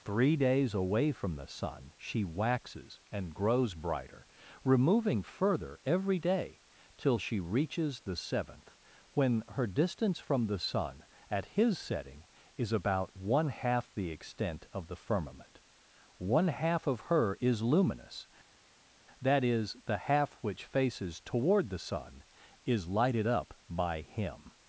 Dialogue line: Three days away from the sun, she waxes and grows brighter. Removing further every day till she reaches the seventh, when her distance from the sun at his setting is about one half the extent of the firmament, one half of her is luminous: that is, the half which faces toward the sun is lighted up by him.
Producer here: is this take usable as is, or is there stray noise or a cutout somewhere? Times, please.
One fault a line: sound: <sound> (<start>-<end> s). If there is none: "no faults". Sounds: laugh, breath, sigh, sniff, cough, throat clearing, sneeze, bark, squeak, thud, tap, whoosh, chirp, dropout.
no faults